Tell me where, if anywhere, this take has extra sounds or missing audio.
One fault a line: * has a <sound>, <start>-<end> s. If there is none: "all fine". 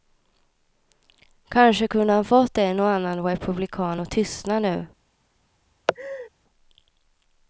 * has a laugh, 5.9-6.3 s